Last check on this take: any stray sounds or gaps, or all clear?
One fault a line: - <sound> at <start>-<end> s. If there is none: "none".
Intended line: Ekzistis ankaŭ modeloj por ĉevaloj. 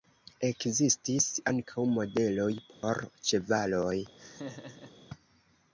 - dropout at 2.7-2.8 s
- laugh at 4.2-4.9 s